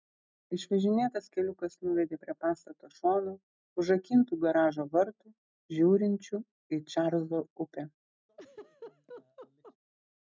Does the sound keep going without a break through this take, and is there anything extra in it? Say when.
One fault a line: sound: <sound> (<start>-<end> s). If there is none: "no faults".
sound: laugh (8.3-9.8 s)